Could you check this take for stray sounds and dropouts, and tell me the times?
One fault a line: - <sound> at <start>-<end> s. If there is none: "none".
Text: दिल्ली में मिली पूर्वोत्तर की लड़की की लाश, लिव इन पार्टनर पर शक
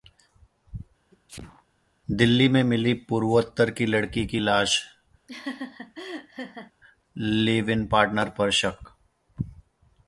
- sneeze at 1.1-1.6 s
- laugh at 5.3-6.7 s